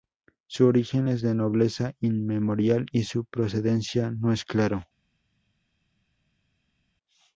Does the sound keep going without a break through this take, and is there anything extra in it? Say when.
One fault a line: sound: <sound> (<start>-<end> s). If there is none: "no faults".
no faults